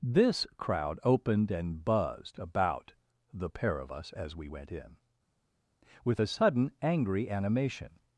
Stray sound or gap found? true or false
false